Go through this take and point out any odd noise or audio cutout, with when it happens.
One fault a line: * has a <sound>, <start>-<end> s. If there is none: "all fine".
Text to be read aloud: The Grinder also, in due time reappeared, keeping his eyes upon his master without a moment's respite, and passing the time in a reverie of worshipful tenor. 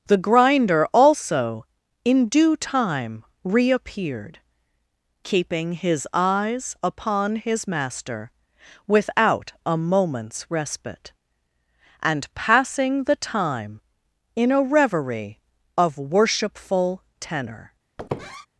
* has a squeak, 18.0-18.5 s